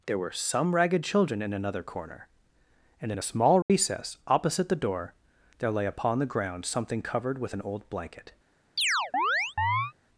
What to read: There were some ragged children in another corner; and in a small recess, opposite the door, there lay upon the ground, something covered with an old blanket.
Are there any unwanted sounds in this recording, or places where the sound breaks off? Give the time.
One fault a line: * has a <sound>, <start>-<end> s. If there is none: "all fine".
* has a dropout, 3.6-3.7 s
* has a chirp, 8.8-9.9 s